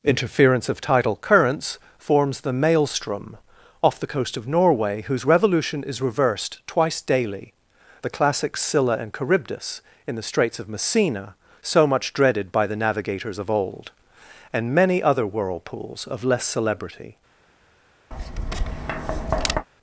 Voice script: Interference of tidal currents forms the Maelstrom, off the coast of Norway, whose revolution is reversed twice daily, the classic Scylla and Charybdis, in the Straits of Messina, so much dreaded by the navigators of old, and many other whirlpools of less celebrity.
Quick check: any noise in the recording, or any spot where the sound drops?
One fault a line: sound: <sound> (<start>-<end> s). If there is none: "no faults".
sound: tap (18.1-19.7 s)